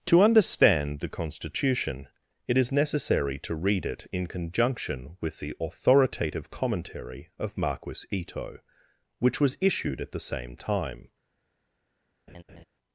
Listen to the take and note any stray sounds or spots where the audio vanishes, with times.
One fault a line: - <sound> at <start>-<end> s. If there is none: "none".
- laugh at 12.3-12.6 s